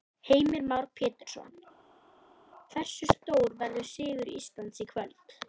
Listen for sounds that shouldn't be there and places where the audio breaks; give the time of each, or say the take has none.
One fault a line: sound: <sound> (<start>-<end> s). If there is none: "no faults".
no faults